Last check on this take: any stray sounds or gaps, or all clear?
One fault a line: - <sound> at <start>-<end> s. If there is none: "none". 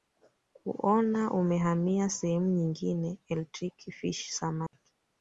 - dropout at 4.7-4.7 s